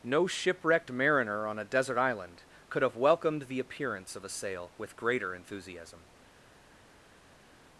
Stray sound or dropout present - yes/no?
no